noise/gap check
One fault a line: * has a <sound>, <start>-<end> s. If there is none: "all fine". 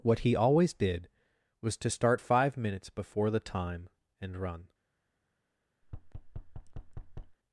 * has a thud, 5.8-7.4 s